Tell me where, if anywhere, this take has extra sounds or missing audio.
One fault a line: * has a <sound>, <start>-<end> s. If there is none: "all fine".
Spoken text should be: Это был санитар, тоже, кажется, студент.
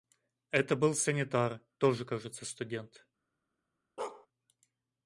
* has a bark, 4.0-4.3 s